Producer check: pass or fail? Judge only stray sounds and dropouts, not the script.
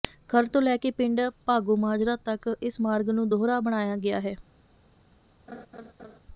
fail